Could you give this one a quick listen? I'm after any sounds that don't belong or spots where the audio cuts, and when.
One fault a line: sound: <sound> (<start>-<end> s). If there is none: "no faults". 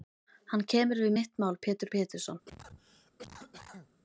sound: cough (2.5-3.9 s)